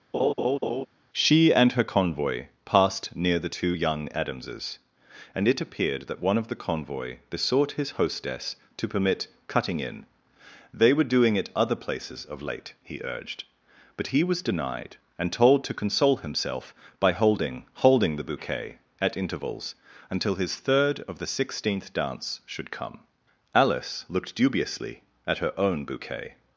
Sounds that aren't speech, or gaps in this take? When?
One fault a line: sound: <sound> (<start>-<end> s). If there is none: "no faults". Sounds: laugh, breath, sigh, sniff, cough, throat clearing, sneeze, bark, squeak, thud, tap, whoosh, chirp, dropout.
sound: laugh (0.1-0.9 s)